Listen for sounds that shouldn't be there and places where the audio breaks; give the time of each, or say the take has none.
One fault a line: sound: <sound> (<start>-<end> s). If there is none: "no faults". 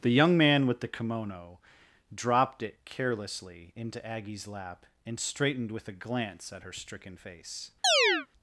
sound: chirp (7.8-8.3 s)